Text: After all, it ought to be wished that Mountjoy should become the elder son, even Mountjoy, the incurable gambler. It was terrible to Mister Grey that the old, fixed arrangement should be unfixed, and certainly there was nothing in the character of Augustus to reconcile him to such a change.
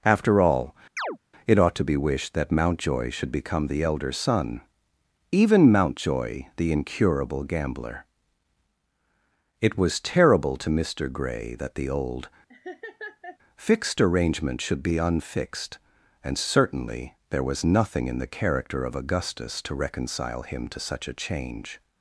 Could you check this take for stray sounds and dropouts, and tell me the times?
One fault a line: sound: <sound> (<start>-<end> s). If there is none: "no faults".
sound: chirp (1.0-1.2 s)
sound: laugh (12.5-13.4 s)